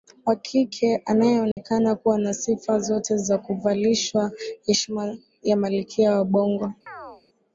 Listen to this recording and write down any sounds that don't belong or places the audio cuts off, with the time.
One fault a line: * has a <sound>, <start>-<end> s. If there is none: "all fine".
* has a dropout, 1.5-1.6 s
* has a chirp, 6.9-7.2 s